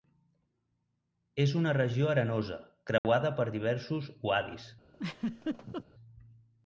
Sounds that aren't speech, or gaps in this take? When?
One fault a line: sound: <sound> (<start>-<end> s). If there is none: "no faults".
sound: dropout (3.0-3.0 s)
sound: laugh (4.9-5.8 s)